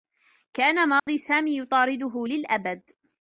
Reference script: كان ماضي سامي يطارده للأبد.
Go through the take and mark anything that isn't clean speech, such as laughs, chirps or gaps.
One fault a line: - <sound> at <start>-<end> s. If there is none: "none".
- dropout at 1.0-1.1 s